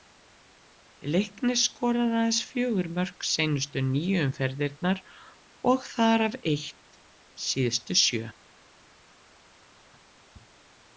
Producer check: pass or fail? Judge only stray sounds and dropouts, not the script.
pass